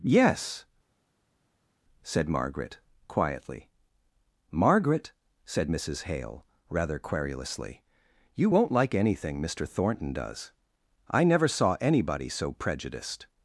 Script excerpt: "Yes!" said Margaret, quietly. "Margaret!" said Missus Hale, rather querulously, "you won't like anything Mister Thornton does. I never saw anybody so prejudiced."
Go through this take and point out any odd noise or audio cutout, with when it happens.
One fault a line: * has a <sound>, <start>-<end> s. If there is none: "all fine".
all fine